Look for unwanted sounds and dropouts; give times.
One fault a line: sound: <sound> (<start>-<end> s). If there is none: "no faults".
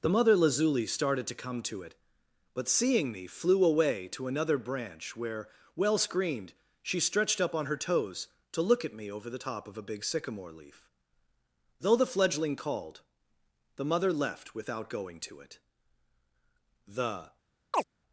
sound: chirp (17.7-17.8 s)